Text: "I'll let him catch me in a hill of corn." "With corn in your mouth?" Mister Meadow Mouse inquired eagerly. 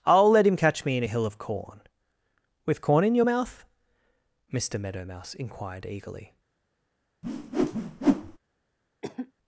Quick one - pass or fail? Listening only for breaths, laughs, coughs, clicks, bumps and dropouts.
fail